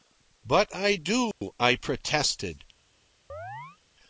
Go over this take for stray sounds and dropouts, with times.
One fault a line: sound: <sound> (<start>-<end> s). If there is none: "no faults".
sound: dropout (1.3-1.4 s)
sound: chirp (3.3-3.8 s)